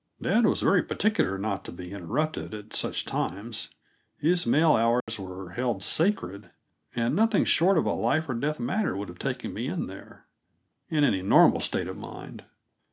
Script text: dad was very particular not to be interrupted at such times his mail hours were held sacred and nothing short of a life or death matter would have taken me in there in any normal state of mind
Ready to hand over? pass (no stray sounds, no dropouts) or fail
fail